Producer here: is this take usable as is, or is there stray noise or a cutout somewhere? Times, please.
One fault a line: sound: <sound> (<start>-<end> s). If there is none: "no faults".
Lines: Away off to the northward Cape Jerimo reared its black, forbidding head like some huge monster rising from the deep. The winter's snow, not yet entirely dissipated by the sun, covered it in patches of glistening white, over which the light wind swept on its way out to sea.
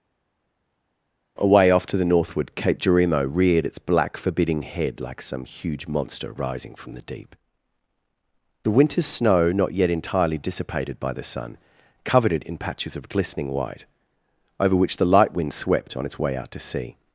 no faults